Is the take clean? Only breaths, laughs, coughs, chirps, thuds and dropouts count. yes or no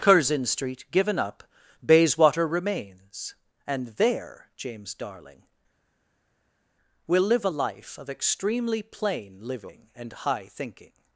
yes